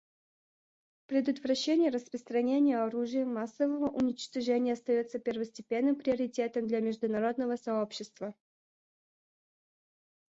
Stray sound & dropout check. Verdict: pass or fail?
pass